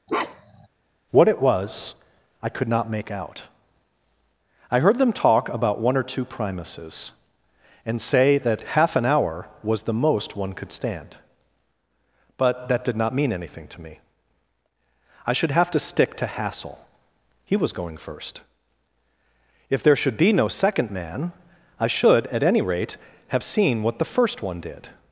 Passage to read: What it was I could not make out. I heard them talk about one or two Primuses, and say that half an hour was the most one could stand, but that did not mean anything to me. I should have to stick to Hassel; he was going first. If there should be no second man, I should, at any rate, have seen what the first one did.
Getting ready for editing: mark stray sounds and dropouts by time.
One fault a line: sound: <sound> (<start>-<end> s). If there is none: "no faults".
sound: bark (0.1-0.7 s)